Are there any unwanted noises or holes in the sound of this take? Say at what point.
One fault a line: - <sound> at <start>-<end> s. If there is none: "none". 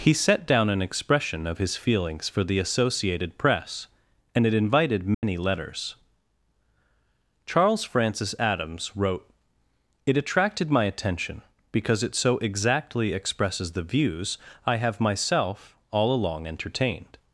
- dropout at 5.1-5.2 s